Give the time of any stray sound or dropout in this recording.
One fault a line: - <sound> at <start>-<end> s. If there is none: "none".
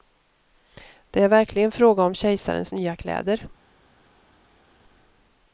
none